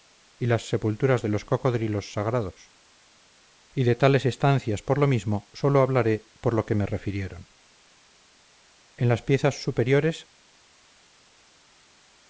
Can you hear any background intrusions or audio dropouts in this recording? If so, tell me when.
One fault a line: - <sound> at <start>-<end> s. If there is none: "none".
none